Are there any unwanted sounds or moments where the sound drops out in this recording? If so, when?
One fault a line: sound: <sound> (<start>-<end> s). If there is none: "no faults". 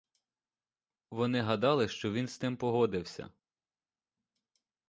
no faults